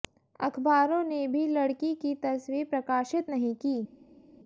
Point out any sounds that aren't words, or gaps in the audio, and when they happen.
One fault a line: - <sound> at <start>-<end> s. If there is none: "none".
none